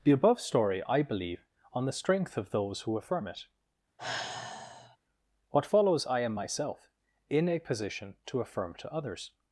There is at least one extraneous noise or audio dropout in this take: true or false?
true